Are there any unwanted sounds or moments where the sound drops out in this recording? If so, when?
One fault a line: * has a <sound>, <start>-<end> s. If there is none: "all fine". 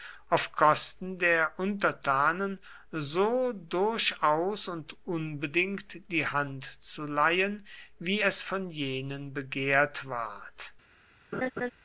* has a laugh, 11.3-11.7 s